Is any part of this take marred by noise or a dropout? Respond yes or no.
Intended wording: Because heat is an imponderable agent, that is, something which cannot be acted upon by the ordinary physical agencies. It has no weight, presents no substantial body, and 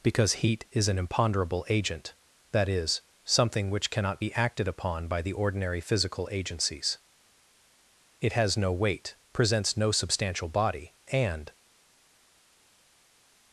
no